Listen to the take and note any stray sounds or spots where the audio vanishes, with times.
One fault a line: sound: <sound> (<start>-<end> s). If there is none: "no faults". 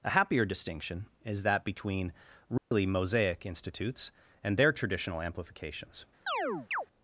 sound: dropout (2.6-2.7 s)
sound: chirp (6.3-6.9 s)